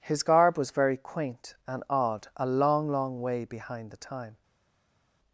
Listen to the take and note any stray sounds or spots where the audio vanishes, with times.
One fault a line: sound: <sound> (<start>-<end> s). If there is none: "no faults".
no faults